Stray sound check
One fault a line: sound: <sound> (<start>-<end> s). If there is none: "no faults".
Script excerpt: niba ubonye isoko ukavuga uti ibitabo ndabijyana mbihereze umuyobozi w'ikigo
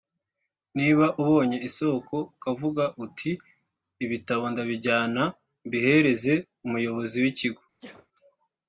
sound: sneeze (7.8-8.1 s)